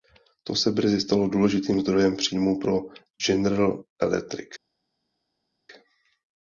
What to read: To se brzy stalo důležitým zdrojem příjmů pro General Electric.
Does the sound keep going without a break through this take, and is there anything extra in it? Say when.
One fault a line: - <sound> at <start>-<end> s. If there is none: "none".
none